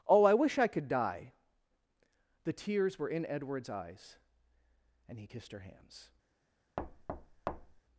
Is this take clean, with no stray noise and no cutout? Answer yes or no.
no